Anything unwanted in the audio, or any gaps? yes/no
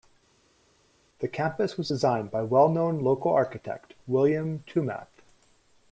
no